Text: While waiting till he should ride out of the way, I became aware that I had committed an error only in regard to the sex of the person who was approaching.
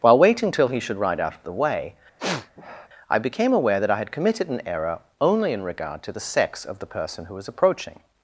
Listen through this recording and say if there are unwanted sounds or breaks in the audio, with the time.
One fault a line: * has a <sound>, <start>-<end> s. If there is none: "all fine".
* has a sniff, 2.2-2.9 s